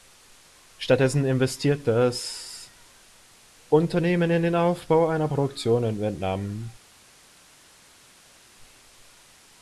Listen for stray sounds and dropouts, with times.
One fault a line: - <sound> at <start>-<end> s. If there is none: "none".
none